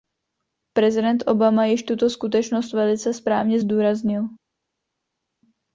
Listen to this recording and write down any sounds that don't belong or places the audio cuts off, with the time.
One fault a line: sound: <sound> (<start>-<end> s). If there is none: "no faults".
no faults